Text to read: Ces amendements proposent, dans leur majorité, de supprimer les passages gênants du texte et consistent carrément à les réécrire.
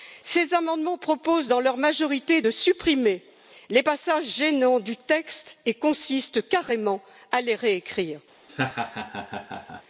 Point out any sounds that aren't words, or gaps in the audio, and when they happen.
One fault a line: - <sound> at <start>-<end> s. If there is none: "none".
- laugh at 8.5-9.8 s